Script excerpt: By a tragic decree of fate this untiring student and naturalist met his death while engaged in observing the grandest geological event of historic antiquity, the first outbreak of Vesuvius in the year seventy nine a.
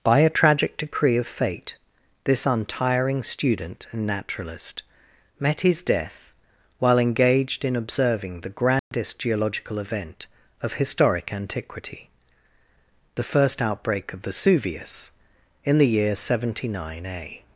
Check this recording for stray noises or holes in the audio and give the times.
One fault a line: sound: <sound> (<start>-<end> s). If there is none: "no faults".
sound: dropout (8.8-8.9 s)